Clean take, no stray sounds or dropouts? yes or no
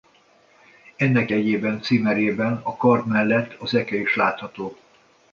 yes